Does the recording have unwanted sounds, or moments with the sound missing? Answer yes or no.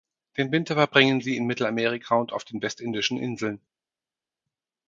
no